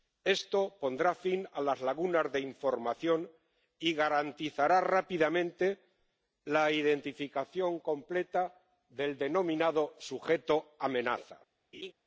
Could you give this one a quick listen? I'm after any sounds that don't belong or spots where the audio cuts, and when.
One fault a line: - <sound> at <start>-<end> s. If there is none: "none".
- laugh at 11.7-11.9 s